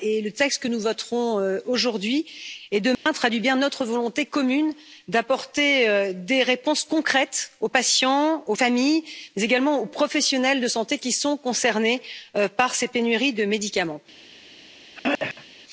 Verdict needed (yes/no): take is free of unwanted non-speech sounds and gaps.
no